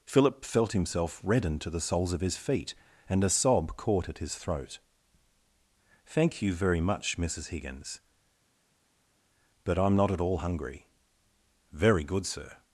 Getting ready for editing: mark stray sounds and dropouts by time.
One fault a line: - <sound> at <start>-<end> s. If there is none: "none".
none